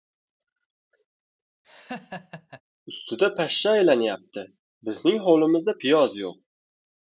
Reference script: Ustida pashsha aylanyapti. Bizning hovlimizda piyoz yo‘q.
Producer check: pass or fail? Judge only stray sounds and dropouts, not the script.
fail